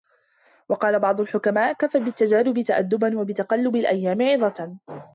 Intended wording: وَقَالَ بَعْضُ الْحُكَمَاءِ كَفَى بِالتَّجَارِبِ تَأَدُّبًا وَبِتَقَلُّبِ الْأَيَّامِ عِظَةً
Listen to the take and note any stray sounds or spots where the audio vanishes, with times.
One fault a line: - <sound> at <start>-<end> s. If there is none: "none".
none